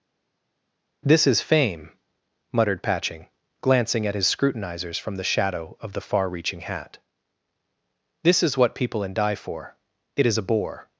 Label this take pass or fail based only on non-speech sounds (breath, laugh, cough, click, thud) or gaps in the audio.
pass